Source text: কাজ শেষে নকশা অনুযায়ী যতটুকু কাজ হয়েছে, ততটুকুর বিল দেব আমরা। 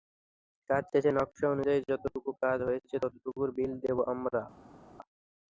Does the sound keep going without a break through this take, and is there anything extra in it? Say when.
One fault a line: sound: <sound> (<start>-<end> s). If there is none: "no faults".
no faults